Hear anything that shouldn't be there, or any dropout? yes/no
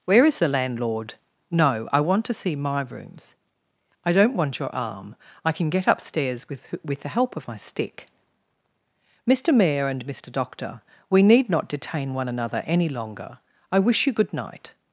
no